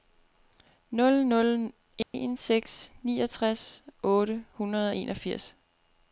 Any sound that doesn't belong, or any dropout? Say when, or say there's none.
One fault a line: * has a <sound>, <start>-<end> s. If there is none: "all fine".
* has a dropout, 2.0-2.1 s